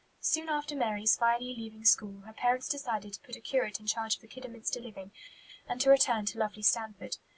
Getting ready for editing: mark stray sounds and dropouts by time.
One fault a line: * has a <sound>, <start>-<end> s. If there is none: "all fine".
all fine